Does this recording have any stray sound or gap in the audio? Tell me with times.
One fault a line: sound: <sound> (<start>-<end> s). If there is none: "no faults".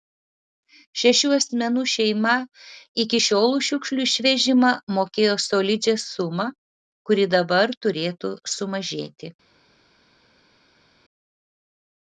no faults